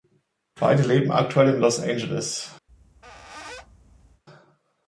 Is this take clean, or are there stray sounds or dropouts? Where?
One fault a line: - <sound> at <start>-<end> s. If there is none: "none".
- squeak at 2.7-4.2 s